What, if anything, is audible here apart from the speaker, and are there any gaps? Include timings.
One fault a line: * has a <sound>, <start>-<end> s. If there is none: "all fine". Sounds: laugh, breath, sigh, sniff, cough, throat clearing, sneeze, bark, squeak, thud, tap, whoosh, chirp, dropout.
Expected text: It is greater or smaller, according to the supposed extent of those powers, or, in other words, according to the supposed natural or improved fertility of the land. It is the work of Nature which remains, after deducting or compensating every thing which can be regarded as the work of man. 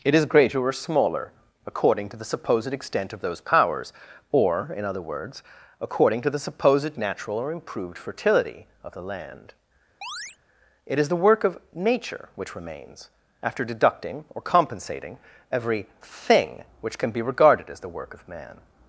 * has a chirp, 10.0-10.4 s